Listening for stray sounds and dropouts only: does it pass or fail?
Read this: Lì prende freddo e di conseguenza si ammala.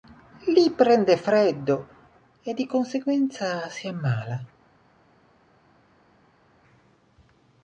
pass